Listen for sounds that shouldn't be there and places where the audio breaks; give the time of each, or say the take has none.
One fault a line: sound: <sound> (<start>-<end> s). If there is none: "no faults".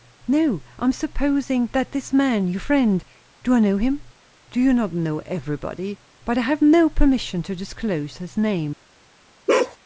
sound: bark (9.5-9.8 s)